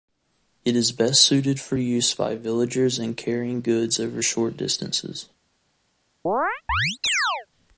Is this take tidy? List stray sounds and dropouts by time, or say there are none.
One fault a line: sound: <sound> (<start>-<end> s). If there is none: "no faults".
sound: chirp (6.3-7.5 s)